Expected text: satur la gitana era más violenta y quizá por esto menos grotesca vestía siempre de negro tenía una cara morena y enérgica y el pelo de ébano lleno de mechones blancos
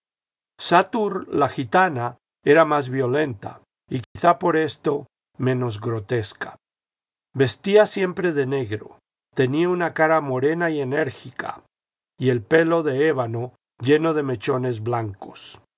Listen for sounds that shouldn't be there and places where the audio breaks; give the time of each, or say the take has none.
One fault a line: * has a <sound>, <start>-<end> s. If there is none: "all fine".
* has a dropout, 4.0-4.2 s